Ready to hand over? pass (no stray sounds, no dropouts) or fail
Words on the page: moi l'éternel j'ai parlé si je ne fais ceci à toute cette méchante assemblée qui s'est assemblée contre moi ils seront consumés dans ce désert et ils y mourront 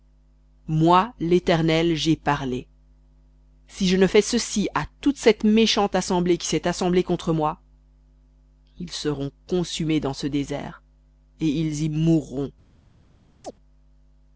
fail